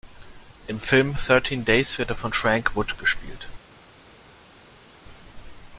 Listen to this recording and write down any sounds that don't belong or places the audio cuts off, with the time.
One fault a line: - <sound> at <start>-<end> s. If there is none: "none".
none